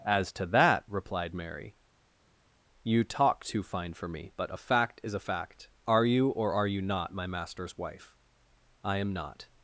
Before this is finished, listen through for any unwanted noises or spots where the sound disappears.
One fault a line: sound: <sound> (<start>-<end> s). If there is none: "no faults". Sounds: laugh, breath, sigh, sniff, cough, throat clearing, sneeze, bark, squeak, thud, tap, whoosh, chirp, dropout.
no faults